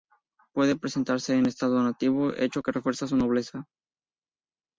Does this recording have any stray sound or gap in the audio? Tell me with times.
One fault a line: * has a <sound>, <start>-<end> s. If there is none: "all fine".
all fine